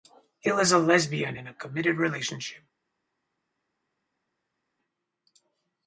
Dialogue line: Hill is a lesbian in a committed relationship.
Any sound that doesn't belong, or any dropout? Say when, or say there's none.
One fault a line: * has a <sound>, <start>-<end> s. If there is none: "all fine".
all fine